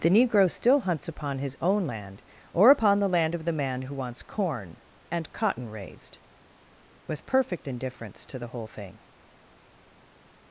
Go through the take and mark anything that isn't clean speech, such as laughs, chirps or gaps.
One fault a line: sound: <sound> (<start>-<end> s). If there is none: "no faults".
no faults